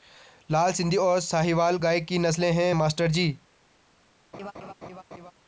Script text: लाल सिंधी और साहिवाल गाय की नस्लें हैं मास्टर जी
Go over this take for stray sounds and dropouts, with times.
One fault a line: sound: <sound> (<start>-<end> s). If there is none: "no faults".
sound: laugh (4.3-5.3 s)